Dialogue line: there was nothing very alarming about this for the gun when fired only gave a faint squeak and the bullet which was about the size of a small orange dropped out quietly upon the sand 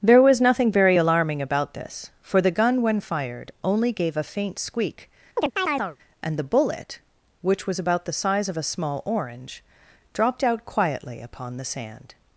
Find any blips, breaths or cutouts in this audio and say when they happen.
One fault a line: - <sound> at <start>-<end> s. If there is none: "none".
- chirp at 5.4-6.0 s